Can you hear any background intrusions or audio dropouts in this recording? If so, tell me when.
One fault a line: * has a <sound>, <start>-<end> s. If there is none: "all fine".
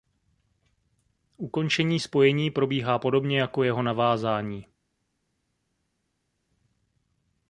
all fine